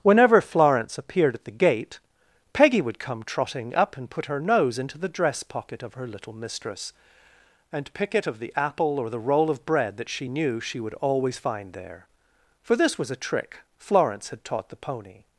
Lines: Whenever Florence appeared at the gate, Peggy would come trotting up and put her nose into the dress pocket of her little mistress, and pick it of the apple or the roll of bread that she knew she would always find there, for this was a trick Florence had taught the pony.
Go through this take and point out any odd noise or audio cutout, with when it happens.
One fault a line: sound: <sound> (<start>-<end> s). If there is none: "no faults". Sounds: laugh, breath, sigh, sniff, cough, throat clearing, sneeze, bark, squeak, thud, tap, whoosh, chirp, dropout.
no faults